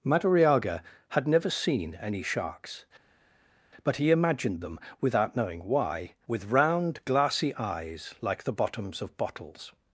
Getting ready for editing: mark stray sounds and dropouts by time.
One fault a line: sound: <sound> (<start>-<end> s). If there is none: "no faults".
no faults